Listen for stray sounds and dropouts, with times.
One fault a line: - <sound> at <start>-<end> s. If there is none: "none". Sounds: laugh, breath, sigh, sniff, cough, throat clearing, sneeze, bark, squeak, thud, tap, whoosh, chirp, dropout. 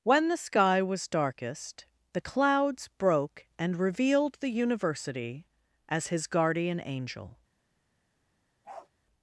- bark at 8.6-8.9 s